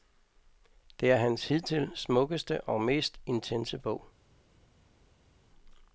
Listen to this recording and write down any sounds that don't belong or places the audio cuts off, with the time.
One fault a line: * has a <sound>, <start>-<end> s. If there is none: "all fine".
all fine